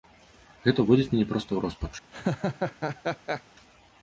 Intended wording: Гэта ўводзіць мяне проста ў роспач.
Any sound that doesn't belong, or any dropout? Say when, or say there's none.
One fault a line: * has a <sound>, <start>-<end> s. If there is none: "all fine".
* has a laugh, 2.1-3.4 s